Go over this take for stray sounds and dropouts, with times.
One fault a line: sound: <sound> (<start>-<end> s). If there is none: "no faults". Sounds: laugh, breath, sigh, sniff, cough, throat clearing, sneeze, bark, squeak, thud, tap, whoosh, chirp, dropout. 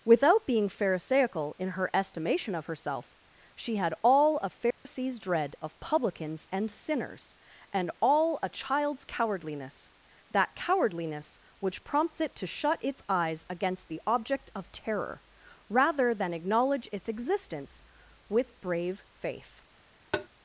sound: dropout (4.7-4.9 s)
sound: tap (20.1-20.3 s)